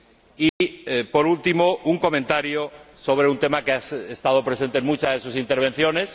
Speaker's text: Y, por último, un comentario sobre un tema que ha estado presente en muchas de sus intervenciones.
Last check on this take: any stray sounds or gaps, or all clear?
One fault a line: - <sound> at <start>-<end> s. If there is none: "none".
- dropout at 0.5-0.6 s